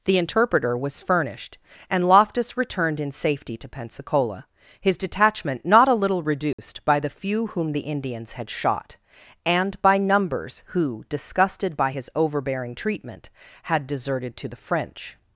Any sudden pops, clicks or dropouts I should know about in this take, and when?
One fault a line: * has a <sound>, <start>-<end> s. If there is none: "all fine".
* has a dropout, 6.5-6.6 s